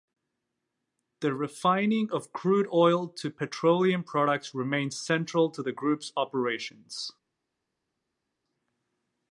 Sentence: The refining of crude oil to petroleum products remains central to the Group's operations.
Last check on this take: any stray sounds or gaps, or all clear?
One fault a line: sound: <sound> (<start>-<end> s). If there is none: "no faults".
no faults